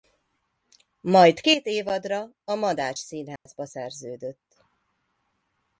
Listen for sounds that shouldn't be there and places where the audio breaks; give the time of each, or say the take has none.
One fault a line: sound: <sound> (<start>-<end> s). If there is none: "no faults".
sound: dropout (3.4-3.5 s)